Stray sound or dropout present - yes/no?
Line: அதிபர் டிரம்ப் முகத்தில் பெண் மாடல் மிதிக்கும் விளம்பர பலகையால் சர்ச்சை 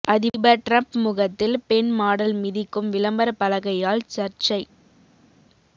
no